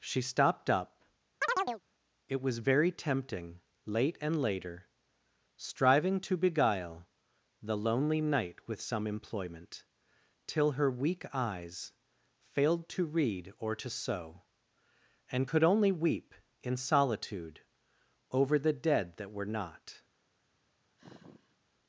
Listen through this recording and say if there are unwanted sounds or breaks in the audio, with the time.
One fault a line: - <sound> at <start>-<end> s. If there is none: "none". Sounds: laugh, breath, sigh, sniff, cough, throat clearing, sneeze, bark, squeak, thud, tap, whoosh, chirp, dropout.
- chirp at 1.4-1.8 s
- sigh at 21.0-21.6 s